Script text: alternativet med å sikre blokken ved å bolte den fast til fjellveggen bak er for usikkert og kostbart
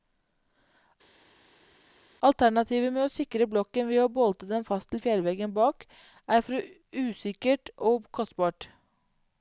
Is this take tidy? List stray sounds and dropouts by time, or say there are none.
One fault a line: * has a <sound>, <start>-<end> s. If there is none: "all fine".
all fine